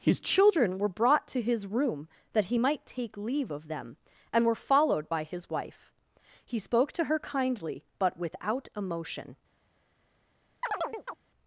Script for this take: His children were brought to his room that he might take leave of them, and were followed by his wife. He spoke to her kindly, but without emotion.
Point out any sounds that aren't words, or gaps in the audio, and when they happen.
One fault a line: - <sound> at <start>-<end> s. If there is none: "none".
- chirp at 10.6-11.2 s